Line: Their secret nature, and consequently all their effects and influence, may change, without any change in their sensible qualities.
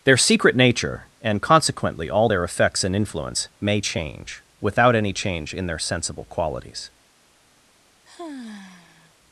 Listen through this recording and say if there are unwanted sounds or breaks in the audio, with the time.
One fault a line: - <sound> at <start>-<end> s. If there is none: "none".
- sigh at 8.1-9.1 s